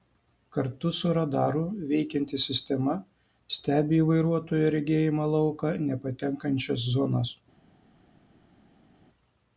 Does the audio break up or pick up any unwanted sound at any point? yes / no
no